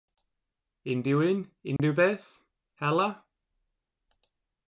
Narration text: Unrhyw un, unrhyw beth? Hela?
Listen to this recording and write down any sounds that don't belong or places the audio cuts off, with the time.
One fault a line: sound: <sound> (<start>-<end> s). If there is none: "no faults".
sound: dropout (1.8-1.8 s)